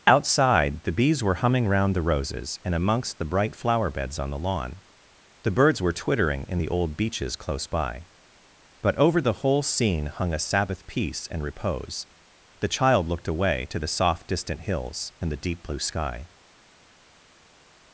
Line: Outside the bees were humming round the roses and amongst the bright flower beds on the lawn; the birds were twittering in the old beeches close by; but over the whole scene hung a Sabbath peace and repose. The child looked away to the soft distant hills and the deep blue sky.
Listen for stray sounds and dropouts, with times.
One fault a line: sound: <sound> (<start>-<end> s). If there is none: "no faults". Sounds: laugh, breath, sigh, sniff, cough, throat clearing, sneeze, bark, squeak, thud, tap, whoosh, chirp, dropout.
no faults